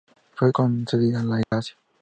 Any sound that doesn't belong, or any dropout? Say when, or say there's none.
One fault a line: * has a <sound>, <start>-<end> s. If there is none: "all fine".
* has a dropout, 1.4-1.5 s